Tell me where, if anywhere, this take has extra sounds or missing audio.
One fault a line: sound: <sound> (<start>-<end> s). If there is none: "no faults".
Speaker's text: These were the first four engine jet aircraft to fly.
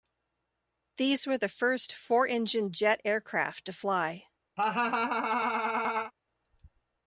sound: laugh (4.6-6.1 s)